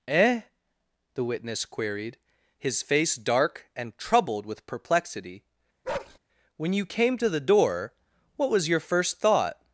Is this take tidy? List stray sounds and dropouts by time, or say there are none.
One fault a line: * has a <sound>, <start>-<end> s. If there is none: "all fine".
* has a bark, 5.8-6.2 s